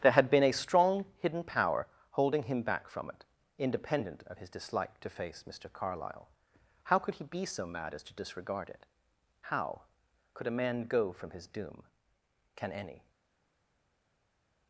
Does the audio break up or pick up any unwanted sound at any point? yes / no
no